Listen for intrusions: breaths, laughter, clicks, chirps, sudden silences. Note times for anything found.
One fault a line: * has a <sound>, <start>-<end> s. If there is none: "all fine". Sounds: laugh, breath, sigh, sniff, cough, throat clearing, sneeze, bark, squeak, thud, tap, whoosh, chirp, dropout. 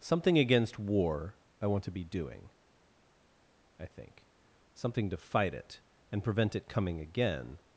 all fine